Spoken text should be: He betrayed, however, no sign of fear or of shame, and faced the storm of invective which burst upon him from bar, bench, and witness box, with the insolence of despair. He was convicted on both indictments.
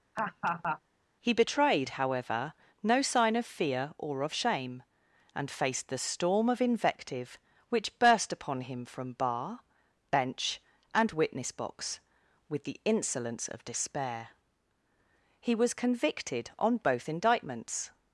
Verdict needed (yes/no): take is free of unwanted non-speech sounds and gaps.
no